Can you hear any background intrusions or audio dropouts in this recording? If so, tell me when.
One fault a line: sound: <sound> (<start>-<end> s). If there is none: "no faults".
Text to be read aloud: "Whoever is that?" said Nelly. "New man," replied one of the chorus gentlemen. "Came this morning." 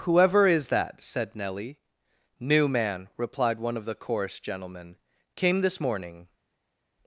no faults